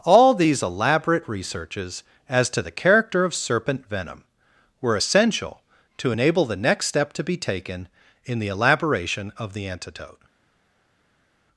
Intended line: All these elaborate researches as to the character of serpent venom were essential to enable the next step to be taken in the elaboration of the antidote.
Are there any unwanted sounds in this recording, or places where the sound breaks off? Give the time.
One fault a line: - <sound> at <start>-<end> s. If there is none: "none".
none